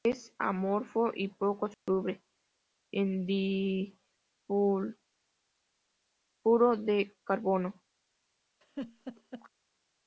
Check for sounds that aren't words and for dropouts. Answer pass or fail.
fail